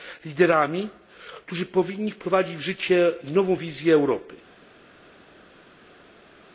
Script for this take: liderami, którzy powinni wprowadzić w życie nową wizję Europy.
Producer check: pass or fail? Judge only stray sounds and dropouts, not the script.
pass